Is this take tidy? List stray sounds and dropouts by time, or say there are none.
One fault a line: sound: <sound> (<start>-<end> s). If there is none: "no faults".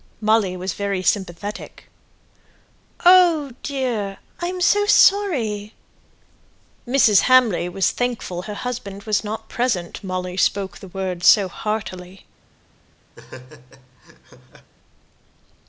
sound: laugh (13.2-14.7 s)